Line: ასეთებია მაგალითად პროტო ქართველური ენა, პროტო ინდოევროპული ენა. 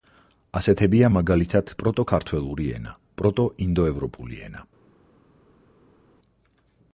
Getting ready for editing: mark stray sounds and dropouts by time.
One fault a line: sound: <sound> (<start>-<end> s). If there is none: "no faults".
no faults